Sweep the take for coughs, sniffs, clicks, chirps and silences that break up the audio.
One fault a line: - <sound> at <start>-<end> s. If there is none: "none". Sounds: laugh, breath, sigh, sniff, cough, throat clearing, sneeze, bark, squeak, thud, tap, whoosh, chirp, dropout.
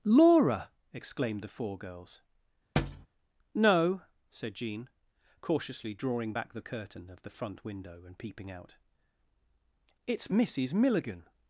- thud at 2.8-3.1 s